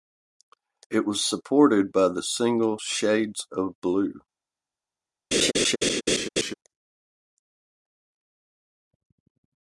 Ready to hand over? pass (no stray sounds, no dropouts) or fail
fail